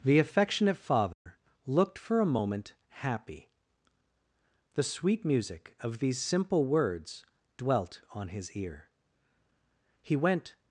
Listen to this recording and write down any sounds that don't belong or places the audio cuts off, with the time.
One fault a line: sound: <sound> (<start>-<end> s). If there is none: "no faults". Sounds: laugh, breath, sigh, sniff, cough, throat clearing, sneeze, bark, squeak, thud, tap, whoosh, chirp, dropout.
sound: dropout (1.1-1.3 s)